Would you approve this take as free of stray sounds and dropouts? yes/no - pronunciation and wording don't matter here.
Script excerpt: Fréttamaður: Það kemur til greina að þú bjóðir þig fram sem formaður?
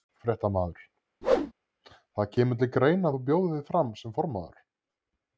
no